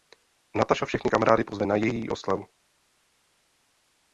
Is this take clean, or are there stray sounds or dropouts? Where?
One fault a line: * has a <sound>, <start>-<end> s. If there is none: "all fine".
all fine